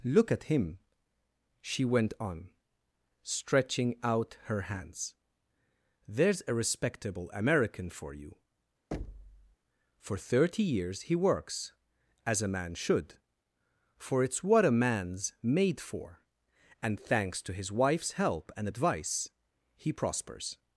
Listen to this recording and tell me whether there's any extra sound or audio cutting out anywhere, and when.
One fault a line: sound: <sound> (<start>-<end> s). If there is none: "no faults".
sound: thud (8.9-9.6 s)